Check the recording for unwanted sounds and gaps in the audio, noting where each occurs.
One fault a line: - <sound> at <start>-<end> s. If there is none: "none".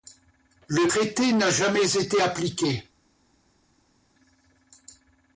none